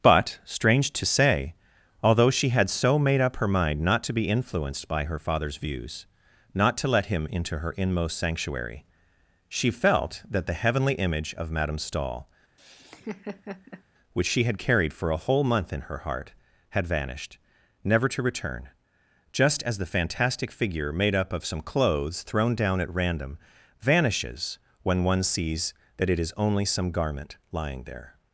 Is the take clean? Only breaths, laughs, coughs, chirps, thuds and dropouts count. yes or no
no